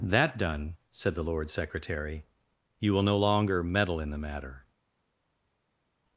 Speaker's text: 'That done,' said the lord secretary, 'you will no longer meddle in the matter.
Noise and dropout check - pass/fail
pass